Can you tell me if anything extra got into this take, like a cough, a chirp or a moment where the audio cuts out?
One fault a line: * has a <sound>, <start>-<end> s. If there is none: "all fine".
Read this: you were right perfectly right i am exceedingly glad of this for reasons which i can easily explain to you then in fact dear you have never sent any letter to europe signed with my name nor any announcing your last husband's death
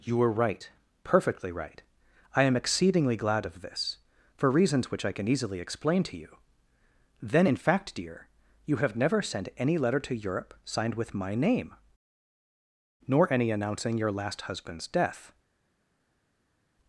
all fine